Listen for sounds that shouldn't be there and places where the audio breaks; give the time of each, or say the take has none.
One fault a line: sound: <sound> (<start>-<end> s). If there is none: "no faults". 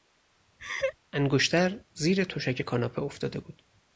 sound: laugh (0.6-1.0 s)